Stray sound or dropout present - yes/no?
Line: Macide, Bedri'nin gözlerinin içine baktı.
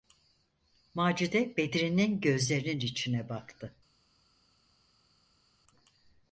no